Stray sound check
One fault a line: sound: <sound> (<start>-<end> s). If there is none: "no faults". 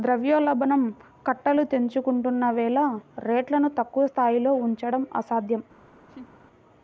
sound: laugh (6.1-6.3 s)